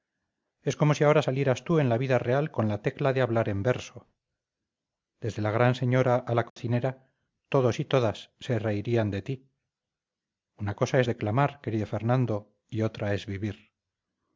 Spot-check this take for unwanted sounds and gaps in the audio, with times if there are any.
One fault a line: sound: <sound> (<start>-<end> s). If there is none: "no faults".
sound: dropout (6.5-6.6 s)